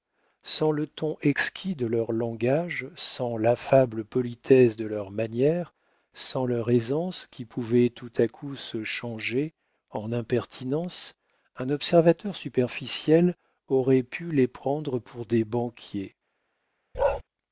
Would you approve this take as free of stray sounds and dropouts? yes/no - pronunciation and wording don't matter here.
no